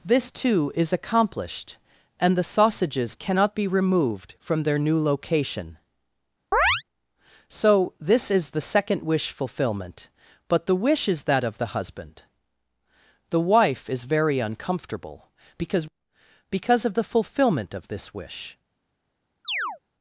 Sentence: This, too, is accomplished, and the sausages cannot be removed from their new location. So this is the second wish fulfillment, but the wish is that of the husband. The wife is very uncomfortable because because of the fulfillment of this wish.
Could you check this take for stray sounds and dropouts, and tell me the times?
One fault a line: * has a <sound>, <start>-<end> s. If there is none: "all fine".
* has a chirp, 6.5-6.8 s
* has a chirp, 19.4-19.8 s